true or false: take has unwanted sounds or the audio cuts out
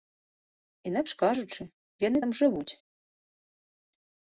false